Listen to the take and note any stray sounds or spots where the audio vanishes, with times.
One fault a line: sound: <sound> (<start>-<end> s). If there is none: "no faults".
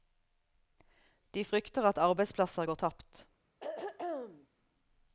sound: throat clearing (3.6-4.5 s)